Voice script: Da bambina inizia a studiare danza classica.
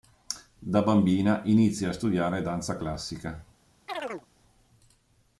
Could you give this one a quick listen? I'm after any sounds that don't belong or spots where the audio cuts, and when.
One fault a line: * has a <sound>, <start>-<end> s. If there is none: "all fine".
* has a chirp, 3.9-4.3 s